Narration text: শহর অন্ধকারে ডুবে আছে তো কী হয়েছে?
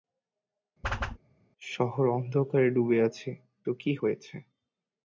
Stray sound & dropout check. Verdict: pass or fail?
fail